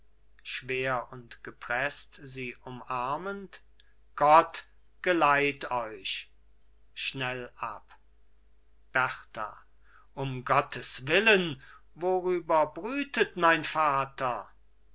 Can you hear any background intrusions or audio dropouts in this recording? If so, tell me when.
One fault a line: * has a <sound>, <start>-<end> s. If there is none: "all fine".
all fine